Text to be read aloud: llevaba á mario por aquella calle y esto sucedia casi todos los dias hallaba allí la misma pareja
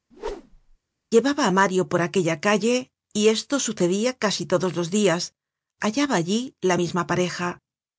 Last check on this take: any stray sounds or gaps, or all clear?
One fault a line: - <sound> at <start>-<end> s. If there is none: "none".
- whoosh at 0.1-0.8 s